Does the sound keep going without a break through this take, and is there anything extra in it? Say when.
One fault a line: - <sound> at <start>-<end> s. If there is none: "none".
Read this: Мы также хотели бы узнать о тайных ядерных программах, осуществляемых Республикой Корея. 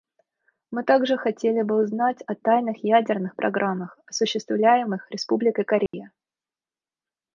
- dropout at 5.9-5.9 s